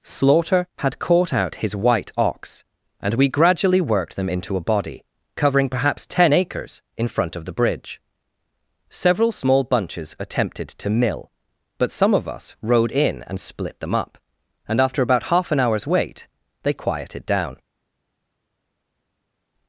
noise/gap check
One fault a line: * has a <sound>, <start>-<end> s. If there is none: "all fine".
all fine